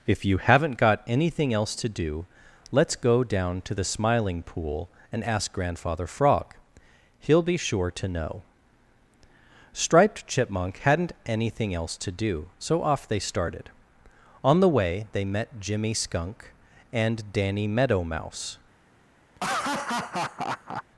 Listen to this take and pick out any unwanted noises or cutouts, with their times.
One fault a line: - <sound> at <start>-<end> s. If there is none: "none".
- laugh at 19.4-20.8 s